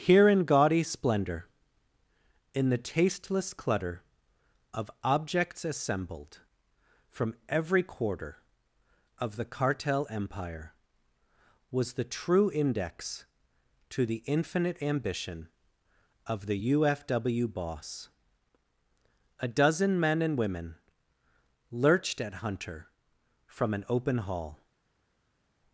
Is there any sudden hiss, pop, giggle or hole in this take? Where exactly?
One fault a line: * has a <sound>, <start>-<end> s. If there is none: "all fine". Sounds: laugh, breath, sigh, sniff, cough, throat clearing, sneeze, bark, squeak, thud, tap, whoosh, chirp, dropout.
all fine